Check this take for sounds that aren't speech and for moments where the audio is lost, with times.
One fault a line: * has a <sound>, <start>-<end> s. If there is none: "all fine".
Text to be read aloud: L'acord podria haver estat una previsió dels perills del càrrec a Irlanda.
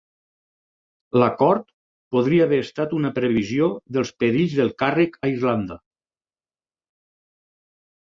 all fine